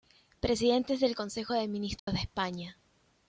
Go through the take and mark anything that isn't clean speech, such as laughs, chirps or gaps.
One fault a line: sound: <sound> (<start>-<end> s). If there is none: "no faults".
sound: dropout (2.0-2.1 s)